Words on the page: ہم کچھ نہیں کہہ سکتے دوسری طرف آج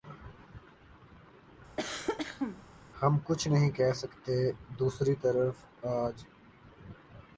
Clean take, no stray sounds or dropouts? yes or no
no